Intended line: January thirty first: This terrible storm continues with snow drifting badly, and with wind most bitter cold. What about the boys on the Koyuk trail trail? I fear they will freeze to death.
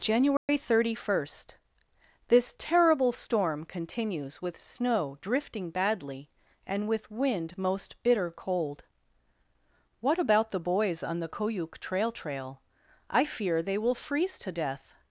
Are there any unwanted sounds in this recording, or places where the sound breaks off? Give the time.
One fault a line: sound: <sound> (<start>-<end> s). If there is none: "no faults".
sound: dropout (0.4-0.5 s)